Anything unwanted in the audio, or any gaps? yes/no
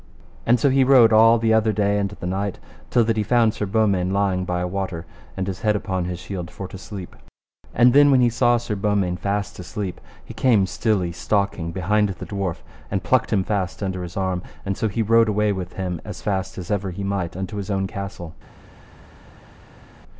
no